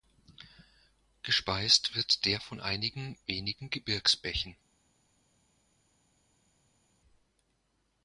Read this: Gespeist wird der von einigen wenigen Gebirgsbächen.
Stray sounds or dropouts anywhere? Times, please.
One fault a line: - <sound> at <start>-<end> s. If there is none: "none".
none